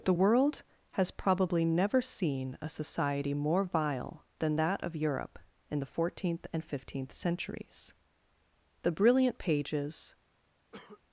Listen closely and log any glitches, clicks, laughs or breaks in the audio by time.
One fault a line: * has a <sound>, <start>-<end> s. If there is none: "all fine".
* has a cough, 10.7-11.0 s